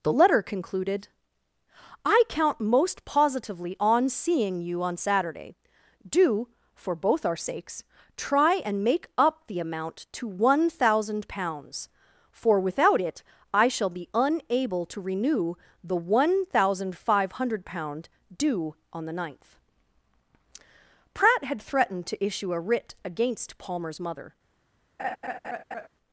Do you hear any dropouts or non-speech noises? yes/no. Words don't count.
yes